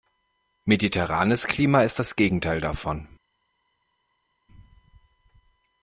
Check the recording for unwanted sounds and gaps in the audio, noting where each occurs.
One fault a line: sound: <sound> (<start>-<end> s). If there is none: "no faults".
no faults